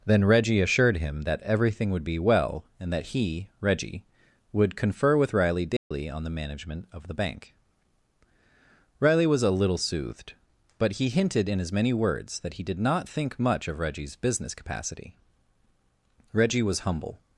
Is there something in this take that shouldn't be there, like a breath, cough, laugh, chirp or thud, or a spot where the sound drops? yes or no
yes